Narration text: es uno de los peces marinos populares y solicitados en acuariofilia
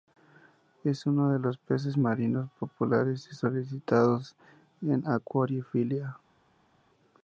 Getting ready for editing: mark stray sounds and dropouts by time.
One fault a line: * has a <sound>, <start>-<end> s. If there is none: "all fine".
all fine